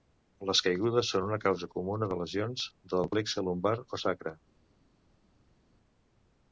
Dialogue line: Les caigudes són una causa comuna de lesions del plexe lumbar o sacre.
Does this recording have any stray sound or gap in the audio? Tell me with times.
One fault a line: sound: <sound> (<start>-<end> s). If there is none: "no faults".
no faults